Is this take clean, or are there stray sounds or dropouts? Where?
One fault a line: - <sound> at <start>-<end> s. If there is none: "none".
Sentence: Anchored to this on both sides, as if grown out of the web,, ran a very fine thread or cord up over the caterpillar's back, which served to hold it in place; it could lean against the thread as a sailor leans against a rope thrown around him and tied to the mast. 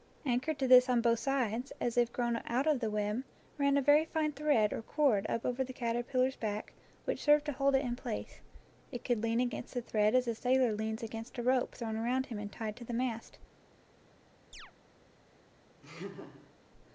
- chirp at 14.5-14.7 s
- laugh at 15.8-16.5 s